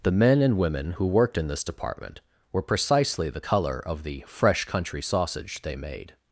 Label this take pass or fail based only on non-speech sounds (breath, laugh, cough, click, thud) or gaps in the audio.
pass